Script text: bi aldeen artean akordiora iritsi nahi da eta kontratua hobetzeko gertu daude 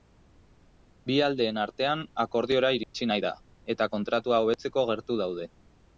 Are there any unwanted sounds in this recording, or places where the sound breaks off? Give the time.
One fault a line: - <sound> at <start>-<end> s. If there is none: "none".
- dropout at 2.8-2.9 s